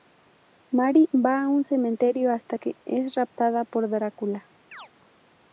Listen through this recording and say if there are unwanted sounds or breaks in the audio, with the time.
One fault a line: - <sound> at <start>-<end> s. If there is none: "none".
- chirp at 4.7-4.9 s